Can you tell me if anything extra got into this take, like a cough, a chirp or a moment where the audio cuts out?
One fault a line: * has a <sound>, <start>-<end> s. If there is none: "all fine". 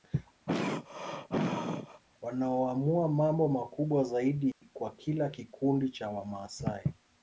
* has a throat clearing, 0.5-2.0 s
* has a dropout, 4.5-4.6 s